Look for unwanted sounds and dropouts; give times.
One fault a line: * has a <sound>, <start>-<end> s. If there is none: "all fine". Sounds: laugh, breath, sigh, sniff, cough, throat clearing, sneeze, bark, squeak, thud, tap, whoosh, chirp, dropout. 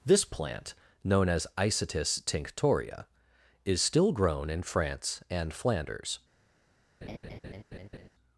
* has a laugh, 7.0-8.1 s